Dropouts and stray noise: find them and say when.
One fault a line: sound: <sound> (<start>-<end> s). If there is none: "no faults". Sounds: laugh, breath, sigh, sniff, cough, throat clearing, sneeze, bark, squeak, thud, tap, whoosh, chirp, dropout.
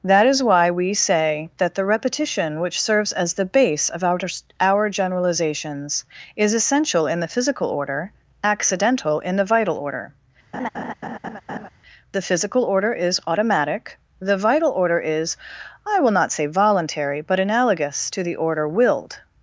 sound: laugh (10.5-11.7 s)